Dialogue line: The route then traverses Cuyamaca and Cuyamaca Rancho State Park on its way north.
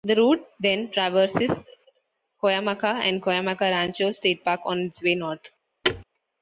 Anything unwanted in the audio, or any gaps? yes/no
yes